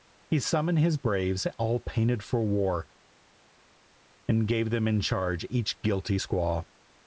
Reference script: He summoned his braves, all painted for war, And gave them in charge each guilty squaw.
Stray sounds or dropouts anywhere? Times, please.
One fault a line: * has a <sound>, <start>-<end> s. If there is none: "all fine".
all fine